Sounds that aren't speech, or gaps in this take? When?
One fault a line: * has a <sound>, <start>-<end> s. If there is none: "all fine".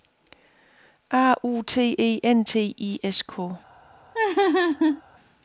* has a laugh, 4.1-5.0 s